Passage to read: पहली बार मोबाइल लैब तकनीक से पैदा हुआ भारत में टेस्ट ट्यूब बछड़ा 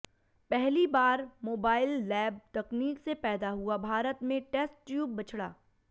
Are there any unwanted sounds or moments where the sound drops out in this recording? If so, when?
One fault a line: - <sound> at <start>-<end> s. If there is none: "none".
none